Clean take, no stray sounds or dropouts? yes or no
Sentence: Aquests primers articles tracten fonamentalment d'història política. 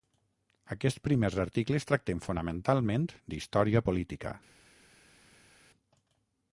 yes